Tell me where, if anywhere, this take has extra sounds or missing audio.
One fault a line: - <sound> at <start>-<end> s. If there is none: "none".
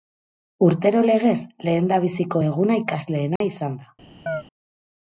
- dropout at 3.4-3.4 s
- chirp at 4.3-4.4 s